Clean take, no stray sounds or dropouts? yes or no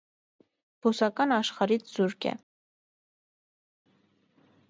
yes